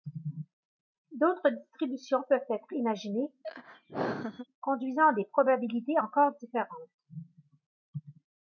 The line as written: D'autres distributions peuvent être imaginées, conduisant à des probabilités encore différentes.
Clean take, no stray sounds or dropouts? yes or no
no